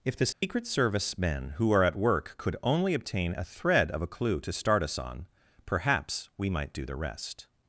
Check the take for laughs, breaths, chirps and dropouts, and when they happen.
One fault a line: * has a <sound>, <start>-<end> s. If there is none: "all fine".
* has a dropout, 0.3-0.4 s